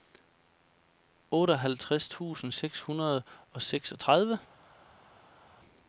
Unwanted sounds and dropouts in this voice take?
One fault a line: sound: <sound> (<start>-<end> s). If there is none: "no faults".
no faults